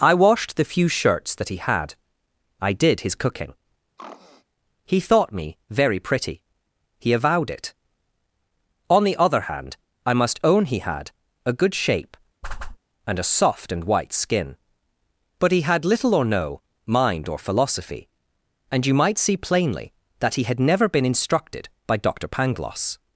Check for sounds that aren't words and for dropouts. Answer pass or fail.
fail